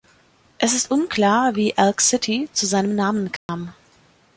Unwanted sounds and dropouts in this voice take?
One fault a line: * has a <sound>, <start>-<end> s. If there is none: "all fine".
* has a dropout, 3.4-3.5 s